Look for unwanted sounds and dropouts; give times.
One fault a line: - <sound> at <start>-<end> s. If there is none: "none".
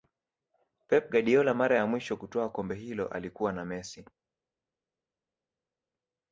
none